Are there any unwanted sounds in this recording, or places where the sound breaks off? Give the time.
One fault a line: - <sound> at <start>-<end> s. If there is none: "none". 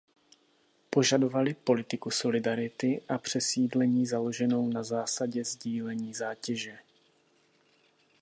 none